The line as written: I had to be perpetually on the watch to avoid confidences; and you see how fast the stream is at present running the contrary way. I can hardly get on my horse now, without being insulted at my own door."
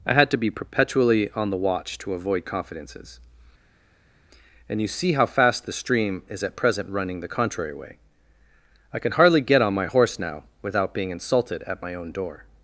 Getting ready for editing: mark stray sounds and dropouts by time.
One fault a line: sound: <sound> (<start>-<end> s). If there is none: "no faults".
no faults